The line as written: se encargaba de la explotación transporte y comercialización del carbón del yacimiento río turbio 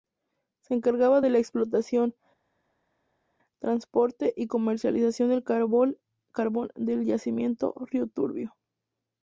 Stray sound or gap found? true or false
false